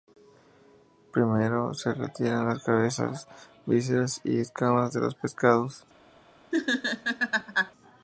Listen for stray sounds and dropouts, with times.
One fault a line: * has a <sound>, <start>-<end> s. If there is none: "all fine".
* has a laugh, 6.5-7.7 s